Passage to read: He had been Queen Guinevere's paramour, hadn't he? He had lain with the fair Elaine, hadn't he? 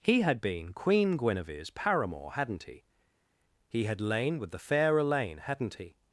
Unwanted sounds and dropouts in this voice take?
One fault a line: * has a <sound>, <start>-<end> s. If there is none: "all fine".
all fine